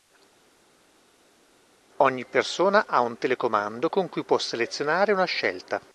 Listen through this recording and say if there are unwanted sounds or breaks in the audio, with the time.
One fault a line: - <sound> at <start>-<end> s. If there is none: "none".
none